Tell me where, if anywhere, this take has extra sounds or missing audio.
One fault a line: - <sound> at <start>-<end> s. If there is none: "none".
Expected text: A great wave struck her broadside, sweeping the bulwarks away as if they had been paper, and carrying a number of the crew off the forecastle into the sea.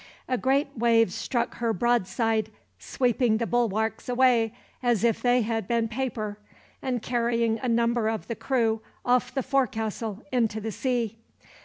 none